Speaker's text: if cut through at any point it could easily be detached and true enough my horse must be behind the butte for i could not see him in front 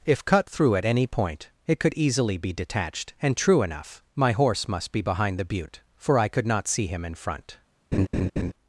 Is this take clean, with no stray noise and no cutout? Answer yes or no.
no